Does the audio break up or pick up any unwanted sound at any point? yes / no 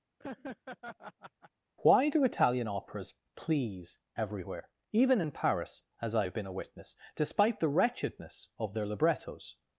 yes